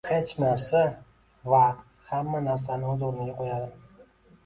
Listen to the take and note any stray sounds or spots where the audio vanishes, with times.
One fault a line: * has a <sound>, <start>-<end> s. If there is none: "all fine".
all fine